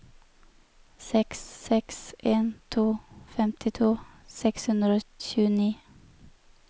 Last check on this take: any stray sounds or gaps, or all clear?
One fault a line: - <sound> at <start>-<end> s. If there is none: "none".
none